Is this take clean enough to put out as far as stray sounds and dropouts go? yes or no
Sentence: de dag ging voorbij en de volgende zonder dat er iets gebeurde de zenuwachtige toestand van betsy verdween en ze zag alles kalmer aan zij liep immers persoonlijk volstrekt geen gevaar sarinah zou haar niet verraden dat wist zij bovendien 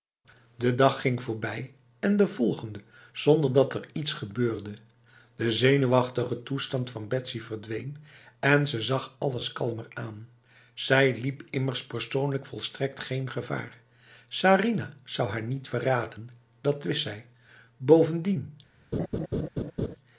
no